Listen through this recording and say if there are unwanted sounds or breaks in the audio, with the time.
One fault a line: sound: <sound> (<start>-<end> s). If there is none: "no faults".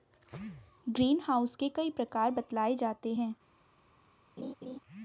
sound: laugh (4.4-4.8 s)